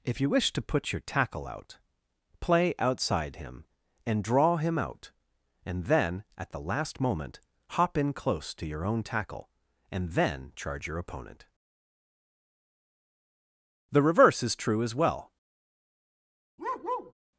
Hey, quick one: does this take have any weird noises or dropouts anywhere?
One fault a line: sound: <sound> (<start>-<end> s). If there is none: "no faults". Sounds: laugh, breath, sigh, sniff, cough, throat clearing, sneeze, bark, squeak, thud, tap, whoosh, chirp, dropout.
sound: bark (16.6-17.1 s)